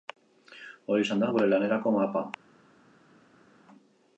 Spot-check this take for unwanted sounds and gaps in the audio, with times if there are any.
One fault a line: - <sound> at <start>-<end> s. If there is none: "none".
none